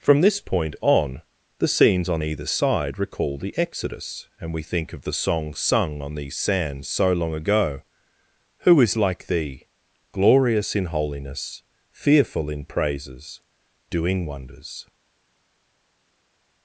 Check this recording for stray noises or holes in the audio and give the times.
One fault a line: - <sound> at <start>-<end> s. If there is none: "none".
none